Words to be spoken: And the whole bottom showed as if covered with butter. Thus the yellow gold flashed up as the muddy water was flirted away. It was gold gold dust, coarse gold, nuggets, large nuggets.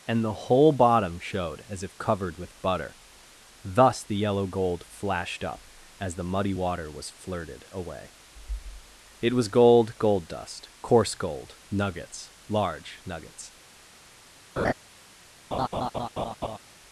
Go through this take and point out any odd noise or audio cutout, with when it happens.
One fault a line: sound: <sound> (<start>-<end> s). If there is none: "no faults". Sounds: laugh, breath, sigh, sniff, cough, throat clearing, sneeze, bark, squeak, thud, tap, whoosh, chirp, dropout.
sound: laugh (14.6-14.7 s)
sound: laugh (15.5-16.6 s)